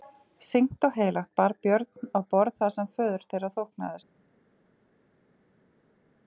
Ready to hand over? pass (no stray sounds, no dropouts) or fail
pass